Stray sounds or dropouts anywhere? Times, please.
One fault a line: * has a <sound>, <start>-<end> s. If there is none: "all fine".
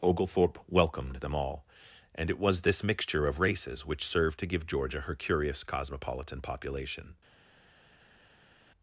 all fine